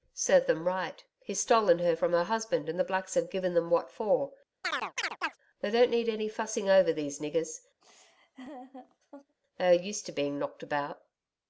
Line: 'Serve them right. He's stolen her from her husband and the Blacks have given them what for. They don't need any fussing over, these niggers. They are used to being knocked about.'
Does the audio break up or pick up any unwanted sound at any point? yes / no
yes